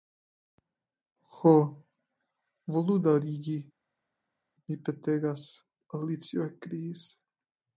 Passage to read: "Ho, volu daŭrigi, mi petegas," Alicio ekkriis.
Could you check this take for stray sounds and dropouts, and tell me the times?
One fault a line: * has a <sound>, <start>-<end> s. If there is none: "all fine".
all fine